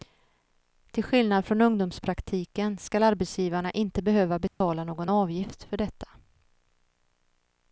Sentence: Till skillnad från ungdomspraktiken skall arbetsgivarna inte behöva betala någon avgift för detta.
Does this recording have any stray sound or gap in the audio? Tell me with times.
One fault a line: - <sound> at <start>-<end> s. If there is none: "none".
- dropout at 4.5-4.6 s